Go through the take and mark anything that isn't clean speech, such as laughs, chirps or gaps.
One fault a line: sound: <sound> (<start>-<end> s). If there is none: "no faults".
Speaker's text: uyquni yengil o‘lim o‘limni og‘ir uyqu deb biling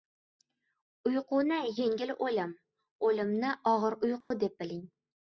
sound: dropout (4.2-4.3 s)